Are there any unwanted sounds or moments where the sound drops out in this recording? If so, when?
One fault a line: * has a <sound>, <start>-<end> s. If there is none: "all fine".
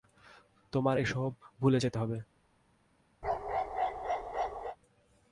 * has a bark, 3.2-4.8 s